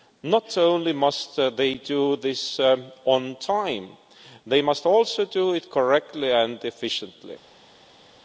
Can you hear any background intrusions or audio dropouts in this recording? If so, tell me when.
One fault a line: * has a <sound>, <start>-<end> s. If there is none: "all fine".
all fine